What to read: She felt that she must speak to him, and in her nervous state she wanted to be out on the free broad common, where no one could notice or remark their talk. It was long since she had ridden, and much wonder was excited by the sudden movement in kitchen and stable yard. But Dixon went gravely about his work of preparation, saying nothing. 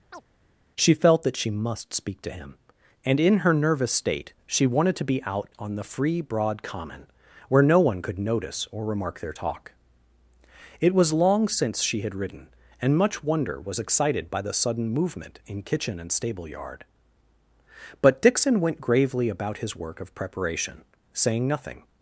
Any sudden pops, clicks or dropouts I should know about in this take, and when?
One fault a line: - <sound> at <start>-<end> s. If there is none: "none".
- chirp at 0.1-0.2 s